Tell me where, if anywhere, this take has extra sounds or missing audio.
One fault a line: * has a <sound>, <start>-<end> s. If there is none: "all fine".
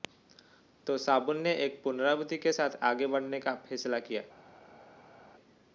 all fine